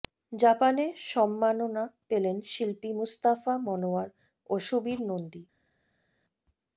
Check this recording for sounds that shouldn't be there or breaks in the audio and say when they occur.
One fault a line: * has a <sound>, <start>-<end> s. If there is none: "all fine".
all fine